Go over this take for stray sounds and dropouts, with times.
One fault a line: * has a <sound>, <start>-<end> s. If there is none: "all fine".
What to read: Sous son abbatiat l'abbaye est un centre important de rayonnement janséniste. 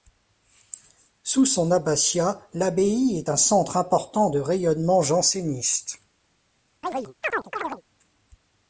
* has a chirp, 6.8-7.8 s